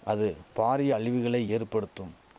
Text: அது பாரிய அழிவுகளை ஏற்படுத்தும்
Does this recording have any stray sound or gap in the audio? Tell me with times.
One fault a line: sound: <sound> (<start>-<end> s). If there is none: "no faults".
no faults